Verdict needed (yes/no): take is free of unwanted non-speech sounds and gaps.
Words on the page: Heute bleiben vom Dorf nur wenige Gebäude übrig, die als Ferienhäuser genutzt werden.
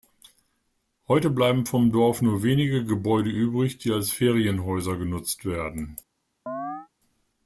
no